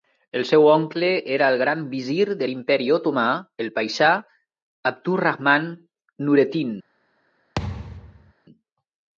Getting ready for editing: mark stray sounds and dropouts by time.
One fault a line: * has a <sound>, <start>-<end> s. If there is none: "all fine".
* has a thud, 7.6-8.3 s